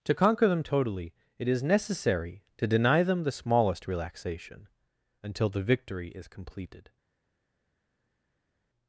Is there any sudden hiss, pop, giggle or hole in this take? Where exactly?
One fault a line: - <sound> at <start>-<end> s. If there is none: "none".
none